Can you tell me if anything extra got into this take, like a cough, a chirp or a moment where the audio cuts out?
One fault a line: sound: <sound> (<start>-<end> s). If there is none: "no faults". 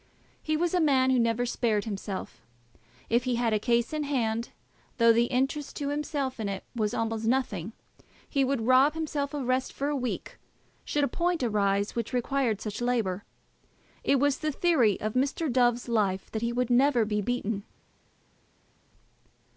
no faults